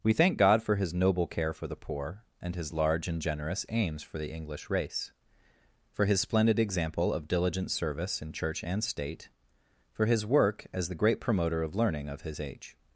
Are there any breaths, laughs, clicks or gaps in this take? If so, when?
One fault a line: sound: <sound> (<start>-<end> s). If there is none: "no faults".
no faults